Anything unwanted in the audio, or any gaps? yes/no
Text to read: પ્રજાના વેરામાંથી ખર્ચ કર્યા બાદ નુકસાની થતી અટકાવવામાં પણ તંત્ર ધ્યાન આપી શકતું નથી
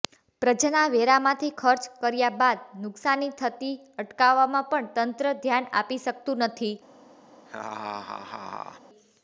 yes